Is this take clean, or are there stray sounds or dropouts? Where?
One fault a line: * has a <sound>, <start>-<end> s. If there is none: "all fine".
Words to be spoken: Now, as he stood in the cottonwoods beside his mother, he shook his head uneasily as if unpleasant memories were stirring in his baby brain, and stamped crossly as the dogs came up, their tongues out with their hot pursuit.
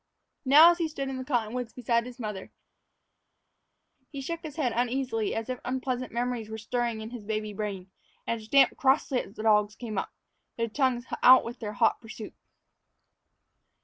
all fine